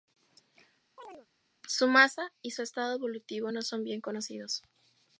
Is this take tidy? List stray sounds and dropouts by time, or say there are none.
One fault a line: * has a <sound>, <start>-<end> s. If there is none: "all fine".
* has a chirp, 1.0-1.3 s